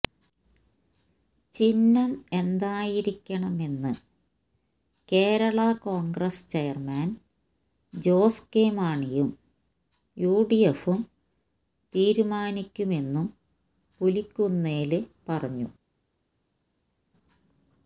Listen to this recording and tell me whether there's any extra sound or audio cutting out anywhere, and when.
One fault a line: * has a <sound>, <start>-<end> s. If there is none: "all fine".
all fine